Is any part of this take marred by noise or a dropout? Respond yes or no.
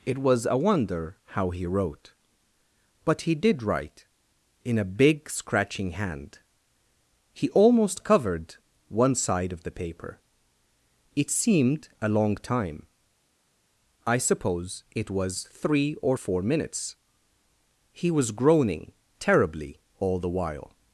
no